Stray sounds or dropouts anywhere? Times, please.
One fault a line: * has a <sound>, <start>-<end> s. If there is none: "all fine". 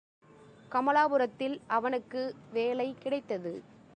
all fine